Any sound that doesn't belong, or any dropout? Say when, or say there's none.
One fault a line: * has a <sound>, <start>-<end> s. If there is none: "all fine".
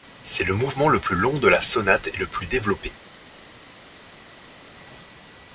all fine